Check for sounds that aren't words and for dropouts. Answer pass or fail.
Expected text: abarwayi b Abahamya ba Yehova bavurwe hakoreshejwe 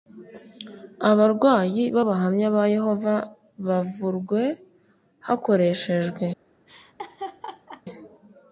fail